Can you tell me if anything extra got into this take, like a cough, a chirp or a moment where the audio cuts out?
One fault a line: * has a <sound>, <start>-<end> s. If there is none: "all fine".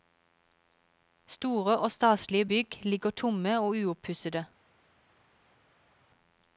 all fine